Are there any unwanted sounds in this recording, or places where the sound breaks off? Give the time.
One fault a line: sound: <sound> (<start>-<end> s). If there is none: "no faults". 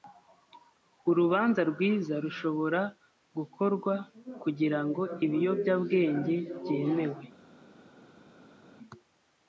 no faults